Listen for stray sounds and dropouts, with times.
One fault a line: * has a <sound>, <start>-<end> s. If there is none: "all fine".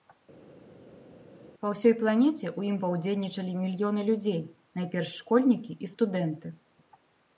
all fine